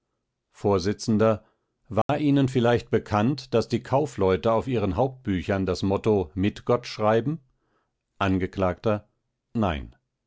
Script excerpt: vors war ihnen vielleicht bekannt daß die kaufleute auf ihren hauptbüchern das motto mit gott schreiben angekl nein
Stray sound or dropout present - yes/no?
yes